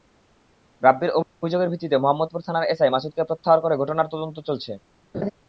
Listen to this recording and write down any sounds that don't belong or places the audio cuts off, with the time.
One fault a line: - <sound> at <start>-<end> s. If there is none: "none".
- laugh at 5.1-5.3 s